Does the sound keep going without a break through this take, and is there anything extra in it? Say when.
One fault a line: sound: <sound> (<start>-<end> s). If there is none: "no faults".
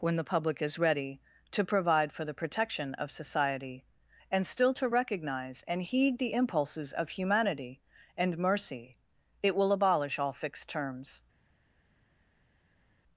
no faults